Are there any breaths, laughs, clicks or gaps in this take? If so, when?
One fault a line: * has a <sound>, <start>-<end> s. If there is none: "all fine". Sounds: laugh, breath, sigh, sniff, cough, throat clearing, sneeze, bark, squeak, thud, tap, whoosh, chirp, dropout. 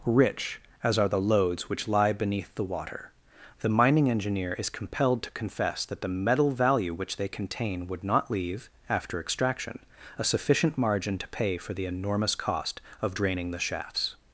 all fine